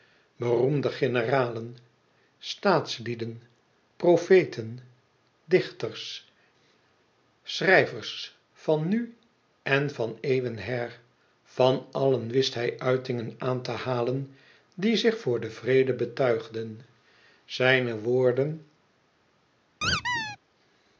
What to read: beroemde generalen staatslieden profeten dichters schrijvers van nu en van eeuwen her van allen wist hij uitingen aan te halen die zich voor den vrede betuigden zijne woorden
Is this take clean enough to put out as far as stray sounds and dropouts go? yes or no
no